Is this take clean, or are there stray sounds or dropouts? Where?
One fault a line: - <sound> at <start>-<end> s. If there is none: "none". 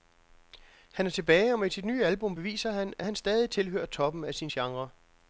none